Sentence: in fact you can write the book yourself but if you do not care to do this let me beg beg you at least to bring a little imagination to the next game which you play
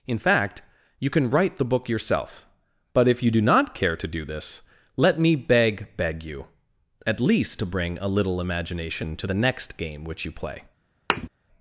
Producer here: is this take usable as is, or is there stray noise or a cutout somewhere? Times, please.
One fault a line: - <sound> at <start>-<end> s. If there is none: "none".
- thud at 11.1-11.3 s